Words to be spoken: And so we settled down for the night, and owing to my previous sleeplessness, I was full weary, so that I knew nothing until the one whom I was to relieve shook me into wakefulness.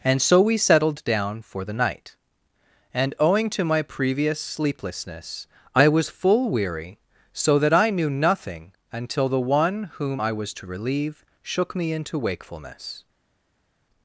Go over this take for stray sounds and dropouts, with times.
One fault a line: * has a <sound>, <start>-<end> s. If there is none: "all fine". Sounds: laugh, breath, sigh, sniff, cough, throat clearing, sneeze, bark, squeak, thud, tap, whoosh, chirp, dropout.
all fine